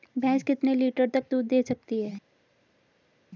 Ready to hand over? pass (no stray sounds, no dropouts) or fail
pass